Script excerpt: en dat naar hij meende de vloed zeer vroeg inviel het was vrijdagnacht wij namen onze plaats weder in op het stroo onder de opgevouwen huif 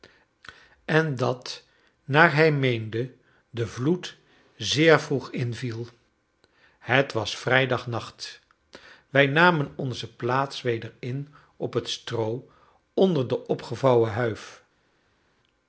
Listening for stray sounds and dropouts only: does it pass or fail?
pass